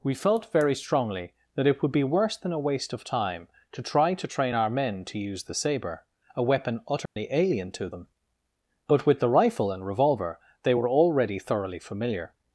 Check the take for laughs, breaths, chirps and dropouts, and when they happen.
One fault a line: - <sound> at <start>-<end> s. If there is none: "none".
- dropout at 7.1-7.2 s